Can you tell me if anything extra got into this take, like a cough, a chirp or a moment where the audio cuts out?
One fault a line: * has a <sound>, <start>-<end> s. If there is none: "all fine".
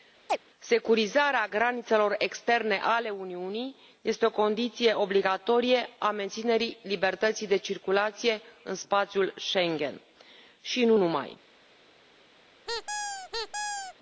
* has a chirp, 0.3-0.4 s
* has a squeak, 12.7-13.9 s